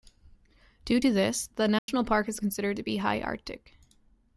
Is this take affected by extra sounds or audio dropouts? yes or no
yes